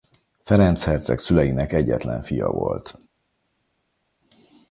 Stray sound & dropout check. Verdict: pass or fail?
pass